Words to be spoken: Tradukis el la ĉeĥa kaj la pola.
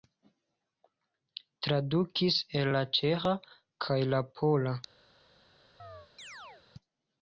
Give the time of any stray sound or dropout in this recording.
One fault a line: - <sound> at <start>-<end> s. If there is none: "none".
- chirp at 5.8-6.7 s